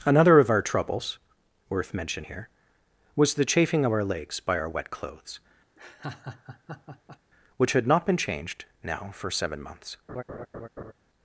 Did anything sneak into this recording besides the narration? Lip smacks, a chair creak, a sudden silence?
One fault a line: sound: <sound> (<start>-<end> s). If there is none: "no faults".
sound: laugh (5.8-7.2 s)
sound: laugh (10.1-10.9 s)